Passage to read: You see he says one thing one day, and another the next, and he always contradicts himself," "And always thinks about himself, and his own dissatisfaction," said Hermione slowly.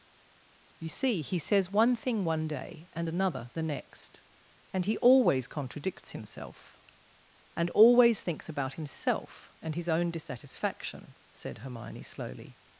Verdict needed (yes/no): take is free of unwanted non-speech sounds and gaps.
yes